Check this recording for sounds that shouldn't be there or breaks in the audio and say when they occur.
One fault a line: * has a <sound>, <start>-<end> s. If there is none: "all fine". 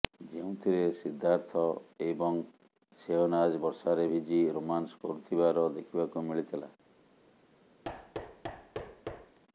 * has a thud, 7.8-9.4 s